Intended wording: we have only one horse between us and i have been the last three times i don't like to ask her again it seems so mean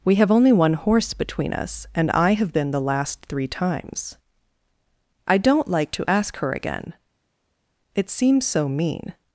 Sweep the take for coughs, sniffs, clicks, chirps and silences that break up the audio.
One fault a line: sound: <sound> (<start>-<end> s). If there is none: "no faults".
no faults